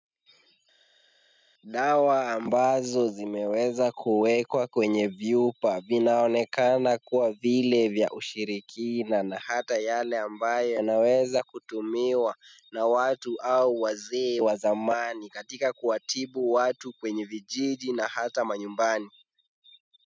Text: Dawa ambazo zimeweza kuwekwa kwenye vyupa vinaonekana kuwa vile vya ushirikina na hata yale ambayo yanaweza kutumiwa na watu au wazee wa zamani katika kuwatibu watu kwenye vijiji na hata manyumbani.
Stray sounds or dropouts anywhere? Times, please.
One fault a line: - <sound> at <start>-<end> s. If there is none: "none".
none